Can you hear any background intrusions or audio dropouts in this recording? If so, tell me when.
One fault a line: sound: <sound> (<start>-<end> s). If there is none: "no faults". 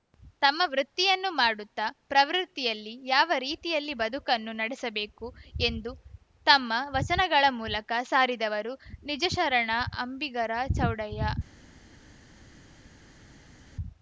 no faults